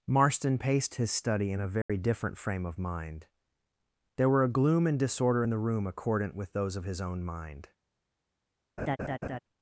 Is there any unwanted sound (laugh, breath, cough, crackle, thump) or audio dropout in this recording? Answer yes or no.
yes